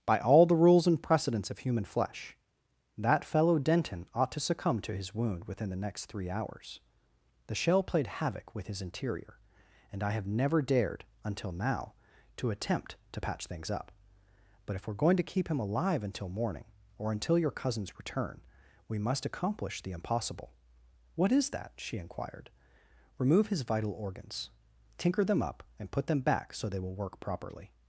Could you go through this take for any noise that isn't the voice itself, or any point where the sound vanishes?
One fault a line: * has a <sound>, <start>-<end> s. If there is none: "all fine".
all fine